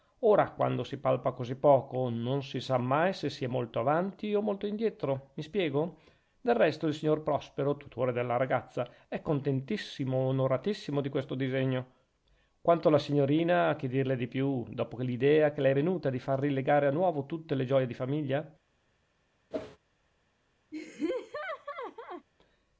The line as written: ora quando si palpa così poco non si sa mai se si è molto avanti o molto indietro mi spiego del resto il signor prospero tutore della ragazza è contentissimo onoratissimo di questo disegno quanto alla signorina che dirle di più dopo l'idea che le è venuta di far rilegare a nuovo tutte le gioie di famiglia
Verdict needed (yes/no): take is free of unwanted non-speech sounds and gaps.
no